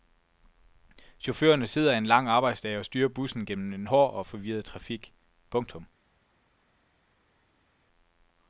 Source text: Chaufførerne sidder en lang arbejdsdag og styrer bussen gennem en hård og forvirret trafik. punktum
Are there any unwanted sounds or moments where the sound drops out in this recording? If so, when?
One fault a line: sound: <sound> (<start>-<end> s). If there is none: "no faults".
no faults